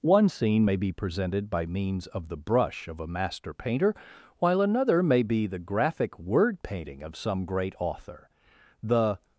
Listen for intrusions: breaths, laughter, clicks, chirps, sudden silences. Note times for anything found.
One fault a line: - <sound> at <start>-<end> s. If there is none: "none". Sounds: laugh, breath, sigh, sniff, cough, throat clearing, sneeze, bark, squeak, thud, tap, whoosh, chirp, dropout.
none